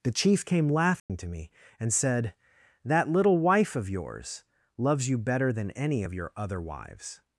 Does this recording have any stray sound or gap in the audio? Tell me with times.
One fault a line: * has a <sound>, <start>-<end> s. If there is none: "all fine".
* has a dropout, 1.0-1.1 s